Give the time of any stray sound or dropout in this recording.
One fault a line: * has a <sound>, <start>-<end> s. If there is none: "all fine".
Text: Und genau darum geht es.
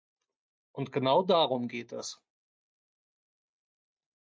all fine